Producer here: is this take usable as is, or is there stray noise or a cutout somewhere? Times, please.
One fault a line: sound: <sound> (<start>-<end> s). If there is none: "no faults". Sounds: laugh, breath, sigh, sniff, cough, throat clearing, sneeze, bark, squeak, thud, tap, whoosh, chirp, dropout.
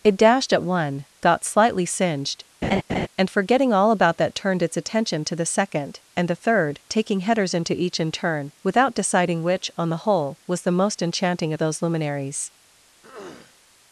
sound: laugh (2.6-3.1 s)
sound: throat clearing (13.0-13.6 s)